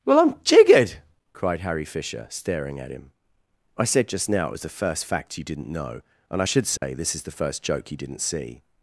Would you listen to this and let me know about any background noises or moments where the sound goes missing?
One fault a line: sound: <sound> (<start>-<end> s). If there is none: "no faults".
sound: dropout (6.8-6.8 s)